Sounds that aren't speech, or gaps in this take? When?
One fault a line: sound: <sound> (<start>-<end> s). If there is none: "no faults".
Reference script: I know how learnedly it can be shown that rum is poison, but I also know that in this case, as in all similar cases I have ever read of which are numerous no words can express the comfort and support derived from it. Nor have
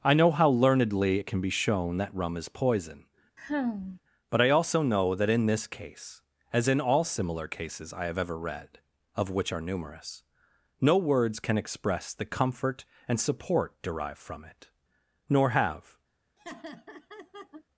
sound: sigh (3.4-4.0 s)
sound: laugh (16.4-17.6 s)